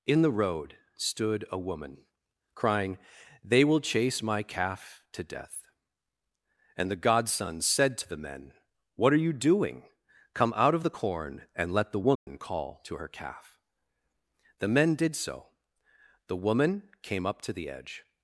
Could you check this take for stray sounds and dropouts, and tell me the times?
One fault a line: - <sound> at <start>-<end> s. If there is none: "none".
- dropout at 12.2-12.3 s